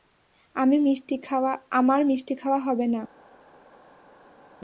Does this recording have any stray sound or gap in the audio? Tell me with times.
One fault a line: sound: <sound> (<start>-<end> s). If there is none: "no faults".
no faults